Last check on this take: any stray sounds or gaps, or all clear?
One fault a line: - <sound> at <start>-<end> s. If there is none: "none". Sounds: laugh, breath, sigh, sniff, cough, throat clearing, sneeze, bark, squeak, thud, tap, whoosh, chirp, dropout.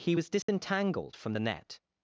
- dropout at 0.4-0.5 s